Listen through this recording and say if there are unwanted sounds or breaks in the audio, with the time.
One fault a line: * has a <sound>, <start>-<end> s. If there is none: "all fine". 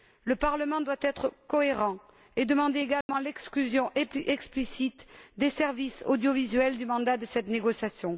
* has a dropout, 3.0-3.1 s